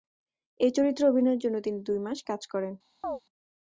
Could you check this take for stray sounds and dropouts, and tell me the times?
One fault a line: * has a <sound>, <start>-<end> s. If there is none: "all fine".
* has a chirp, 3.0-3.2 s